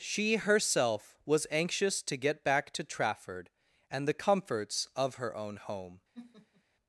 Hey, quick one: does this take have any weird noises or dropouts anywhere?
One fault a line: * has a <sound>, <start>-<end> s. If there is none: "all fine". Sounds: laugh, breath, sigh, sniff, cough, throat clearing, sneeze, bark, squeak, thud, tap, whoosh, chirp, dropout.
* has a laugh, 6.1-6.6 s